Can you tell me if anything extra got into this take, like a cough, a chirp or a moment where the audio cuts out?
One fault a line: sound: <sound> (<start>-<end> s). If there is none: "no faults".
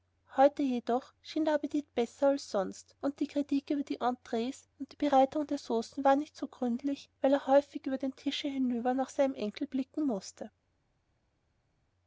no faults